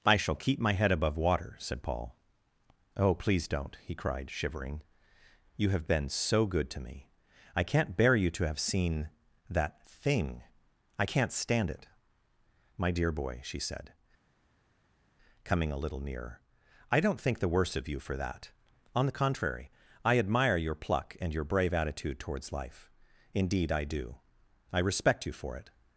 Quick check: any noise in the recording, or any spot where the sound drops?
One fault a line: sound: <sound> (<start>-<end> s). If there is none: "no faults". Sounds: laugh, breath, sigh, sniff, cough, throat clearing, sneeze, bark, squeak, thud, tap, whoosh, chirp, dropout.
no faults